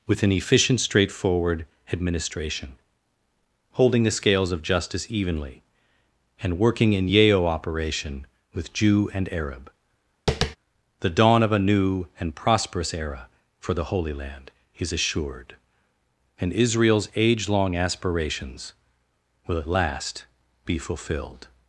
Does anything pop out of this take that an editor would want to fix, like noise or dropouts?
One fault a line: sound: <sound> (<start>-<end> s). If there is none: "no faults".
sound: tap (10.3-10.6 s)